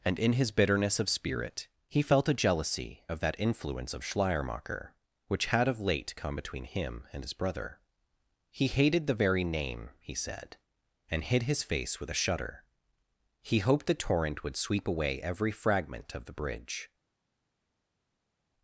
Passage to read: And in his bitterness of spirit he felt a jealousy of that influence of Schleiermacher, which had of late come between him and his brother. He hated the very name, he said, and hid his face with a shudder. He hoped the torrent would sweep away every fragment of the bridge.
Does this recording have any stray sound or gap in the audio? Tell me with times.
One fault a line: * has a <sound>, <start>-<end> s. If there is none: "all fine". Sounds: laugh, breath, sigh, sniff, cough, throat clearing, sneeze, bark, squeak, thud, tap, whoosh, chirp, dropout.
all fine